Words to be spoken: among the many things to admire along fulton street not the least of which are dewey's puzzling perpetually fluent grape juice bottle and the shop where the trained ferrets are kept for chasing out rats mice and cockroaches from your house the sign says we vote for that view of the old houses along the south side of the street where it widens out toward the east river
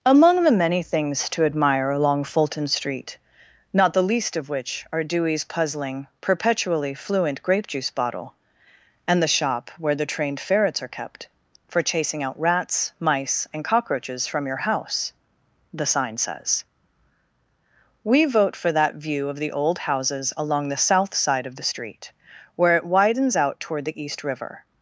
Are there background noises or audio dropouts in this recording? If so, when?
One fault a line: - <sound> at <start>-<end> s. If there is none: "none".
none